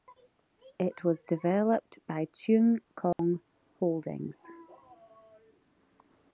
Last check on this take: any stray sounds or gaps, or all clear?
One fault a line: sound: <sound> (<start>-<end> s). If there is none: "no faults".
sound: dropout (3.1-3.2 s)